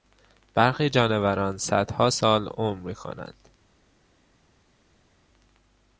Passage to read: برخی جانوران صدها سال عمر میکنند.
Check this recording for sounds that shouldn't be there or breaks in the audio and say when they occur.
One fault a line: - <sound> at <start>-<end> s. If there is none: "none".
none